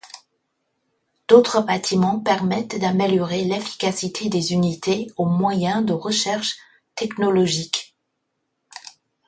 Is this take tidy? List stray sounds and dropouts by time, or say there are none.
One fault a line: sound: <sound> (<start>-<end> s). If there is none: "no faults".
no faults